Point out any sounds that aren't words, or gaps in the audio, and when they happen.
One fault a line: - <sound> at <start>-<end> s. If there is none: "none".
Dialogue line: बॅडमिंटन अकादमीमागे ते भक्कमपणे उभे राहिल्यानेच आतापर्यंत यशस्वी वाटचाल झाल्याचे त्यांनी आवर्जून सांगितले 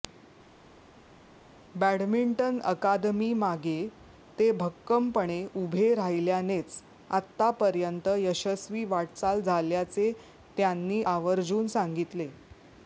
none